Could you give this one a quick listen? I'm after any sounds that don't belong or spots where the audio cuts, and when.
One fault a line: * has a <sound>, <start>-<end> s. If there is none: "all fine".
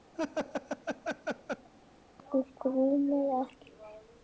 * has a laugh, 0.1-1.7 s